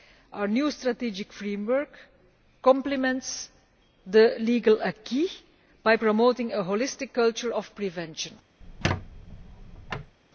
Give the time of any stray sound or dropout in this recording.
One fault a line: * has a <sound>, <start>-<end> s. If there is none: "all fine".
* has a squeak, 8.6-10.1 s